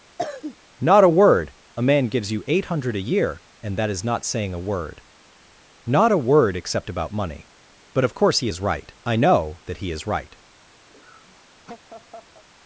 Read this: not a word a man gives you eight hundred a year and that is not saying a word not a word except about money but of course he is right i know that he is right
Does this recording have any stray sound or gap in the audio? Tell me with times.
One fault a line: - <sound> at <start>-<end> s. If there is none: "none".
- cough at 0.2-0.6 s
- laugh at 10.9-12.4 s